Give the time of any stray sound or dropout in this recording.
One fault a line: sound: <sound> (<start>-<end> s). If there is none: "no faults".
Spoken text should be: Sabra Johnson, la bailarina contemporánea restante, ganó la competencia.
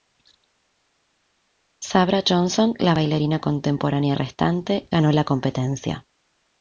no faults